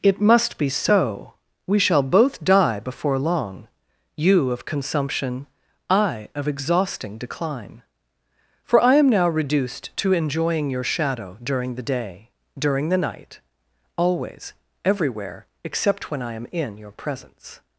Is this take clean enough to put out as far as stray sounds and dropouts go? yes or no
yes